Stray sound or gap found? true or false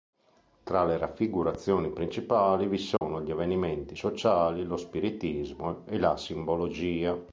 true